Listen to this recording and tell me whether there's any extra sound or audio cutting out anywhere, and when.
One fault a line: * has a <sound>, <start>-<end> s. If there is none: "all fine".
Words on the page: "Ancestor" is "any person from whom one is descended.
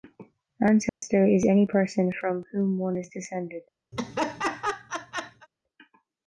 * has a dropout, 0.9-1.0 s
* has a laugh, 3.9-5.5 s